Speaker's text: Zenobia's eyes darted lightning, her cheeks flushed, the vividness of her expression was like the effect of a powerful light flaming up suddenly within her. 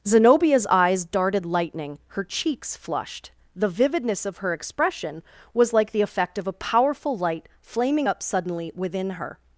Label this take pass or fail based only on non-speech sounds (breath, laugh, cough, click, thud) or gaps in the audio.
pass